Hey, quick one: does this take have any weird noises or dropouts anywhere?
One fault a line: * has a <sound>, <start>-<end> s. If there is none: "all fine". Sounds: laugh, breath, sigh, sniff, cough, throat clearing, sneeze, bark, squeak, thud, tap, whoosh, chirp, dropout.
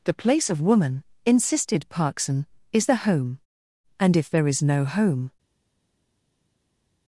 all fine